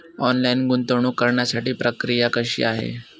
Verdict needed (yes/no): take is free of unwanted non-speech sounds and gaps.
yes